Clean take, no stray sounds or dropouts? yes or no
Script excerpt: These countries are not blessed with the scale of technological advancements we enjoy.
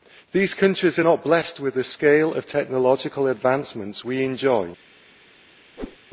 no